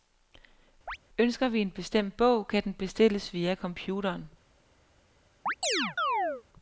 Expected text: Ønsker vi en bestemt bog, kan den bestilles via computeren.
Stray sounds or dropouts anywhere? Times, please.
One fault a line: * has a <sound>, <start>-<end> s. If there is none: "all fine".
* has a chirp, 0.9-1.0 s
* has a chirp, 5.5-6.4 s